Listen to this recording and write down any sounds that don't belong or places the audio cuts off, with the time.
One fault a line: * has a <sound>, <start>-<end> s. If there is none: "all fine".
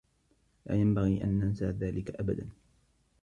all fine